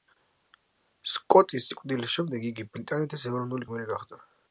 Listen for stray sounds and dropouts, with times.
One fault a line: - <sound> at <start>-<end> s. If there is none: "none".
none